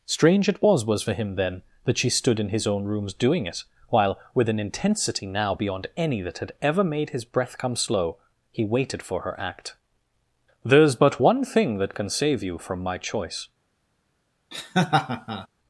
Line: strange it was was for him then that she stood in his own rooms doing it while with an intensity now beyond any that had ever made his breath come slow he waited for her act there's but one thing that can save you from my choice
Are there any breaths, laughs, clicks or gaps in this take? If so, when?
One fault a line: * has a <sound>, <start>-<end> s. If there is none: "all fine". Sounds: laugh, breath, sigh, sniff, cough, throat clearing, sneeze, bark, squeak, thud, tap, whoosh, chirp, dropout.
* has a laugh, 14.5-15.5 s